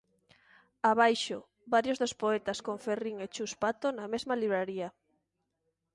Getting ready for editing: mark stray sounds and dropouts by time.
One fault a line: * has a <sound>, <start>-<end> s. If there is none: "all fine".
all fine